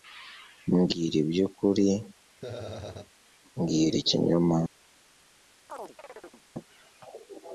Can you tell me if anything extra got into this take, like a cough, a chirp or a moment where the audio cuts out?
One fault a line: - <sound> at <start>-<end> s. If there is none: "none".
- laugh at 2.4-3.1 s
- chirp at 5.7-6.4 s